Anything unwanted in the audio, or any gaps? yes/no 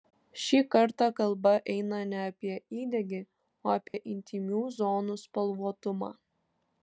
yes